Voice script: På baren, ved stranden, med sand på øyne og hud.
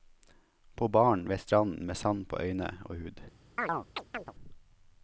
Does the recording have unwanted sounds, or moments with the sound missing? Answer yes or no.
yes